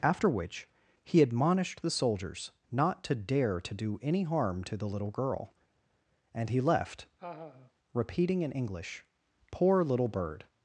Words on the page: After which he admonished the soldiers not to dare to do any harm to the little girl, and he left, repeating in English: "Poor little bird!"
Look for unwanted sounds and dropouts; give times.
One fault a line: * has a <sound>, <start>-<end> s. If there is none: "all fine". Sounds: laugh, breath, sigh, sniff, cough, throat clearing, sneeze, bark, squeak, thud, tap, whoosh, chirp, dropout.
* has a laugh, 7.2-7.7 s